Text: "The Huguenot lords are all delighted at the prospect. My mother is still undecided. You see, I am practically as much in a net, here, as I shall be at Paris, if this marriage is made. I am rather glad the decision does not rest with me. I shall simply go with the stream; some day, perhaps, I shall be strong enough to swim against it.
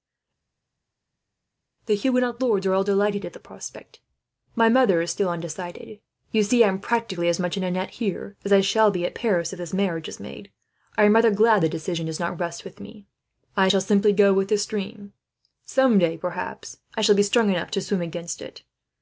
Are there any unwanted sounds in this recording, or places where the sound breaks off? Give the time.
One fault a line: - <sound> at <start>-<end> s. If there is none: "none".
none